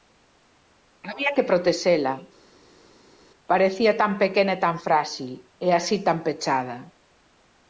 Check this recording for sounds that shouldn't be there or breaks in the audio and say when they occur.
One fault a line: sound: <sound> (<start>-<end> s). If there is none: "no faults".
no faults